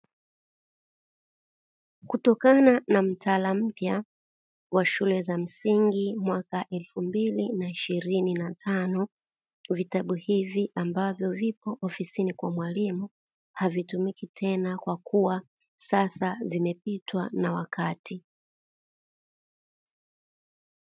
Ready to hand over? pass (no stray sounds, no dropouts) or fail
pass